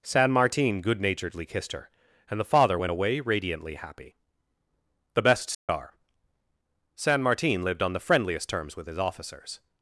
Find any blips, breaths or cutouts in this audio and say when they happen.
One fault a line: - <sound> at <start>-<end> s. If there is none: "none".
- dropout at 5.5-5.7 s